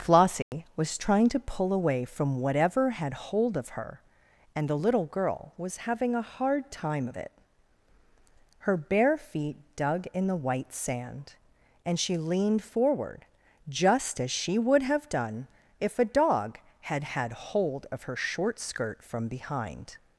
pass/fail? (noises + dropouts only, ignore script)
fail